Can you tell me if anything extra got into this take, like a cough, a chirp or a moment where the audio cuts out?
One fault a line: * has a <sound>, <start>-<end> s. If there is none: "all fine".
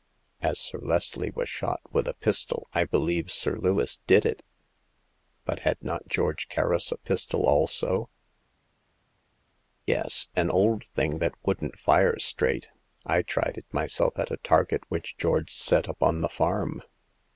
all fine